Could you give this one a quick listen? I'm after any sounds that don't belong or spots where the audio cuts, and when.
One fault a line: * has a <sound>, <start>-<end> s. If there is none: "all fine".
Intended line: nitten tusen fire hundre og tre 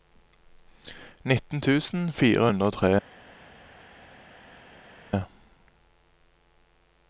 all fine